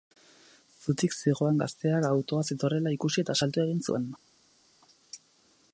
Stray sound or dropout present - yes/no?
no